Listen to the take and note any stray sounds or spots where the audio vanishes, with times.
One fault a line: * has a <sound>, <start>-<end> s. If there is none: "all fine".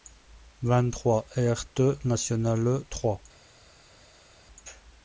all fine